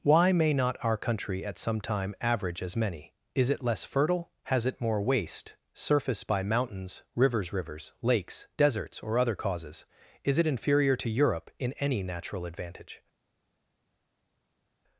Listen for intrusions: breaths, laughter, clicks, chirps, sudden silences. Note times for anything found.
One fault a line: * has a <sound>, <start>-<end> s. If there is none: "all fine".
all fine